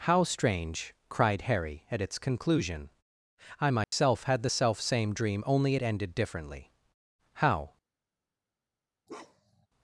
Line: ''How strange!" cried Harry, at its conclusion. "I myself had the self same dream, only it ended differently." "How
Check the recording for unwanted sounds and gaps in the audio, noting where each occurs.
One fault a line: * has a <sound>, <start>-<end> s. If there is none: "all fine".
* has a dropout, 3.8-3.9 s
* has a bark, 9.1-9.7 s